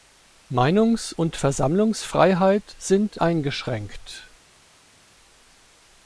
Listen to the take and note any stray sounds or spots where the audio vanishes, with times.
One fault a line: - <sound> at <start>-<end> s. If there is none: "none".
none